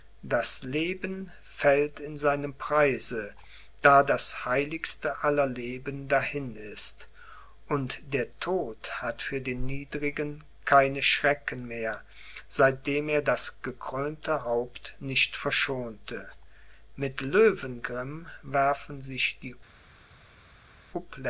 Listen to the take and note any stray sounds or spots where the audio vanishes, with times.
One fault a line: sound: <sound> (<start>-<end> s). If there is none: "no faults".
no faults